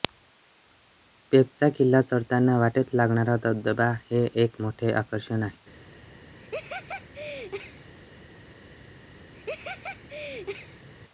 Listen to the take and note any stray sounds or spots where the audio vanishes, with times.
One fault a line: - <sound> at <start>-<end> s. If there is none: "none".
- laugh at 6.4-7.9 s
- laugh at 9.3-10.9 s